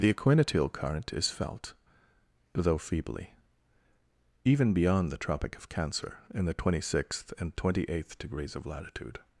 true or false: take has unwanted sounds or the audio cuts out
false